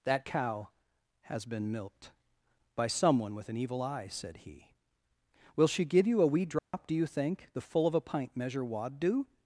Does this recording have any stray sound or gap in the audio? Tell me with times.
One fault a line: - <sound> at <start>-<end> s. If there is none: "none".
- dropout at 6.6-6.7 s